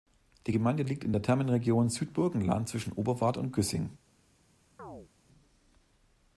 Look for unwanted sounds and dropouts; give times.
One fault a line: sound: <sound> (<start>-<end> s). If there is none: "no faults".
sound: chirp (4.8-5.1 s)